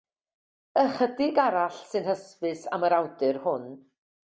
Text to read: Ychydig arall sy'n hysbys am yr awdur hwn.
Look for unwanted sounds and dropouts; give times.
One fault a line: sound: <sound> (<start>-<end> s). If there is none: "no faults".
no faults